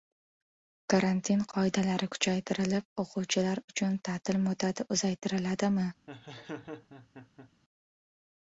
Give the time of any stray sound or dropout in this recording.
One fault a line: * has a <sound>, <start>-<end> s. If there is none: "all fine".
* has a laugh, 6.1-7.5 s